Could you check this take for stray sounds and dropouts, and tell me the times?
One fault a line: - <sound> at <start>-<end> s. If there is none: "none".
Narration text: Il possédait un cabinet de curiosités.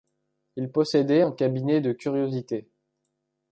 none